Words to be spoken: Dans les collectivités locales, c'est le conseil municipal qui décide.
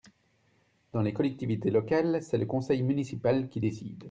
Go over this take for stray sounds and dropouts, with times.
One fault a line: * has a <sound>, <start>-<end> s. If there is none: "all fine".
all fine